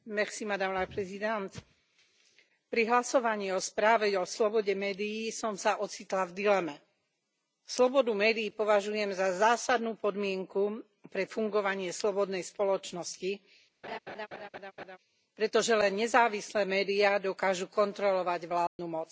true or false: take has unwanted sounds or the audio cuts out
true